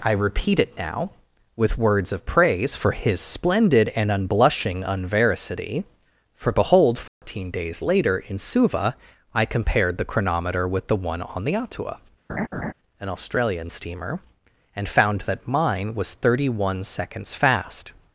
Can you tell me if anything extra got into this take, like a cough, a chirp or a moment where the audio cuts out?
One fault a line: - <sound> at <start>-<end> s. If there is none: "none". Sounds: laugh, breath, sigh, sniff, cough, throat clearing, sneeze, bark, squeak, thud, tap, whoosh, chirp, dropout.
- dropout at 7.1-7.2 s
- laugh at 12.3-12.7 s